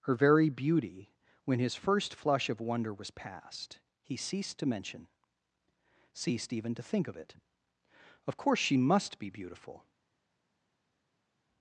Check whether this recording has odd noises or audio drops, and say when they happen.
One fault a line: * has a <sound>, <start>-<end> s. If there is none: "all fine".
all fine